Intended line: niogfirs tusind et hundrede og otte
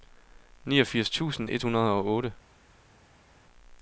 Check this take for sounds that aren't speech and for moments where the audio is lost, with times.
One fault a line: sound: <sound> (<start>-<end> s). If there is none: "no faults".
no faults